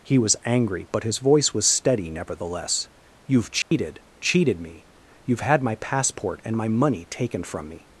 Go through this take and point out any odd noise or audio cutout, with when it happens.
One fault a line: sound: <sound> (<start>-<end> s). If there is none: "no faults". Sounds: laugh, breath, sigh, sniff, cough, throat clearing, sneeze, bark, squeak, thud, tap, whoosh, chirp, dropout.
sound: dropout (3.6-3.7 s)